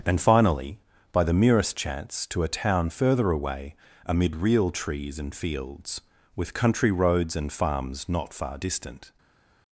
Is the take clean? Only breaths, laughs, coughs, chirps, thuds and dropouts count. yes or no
yes